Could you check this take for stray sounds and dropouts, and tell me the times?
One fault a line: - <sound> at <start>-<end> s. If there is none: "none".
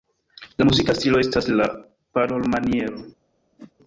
- whoosh at 3.6-3.7 s